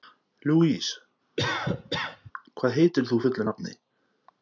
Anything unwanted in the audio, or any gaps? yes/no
yes